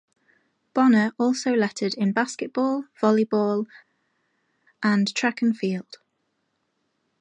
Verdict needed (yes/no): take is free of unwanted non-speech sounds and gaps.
yes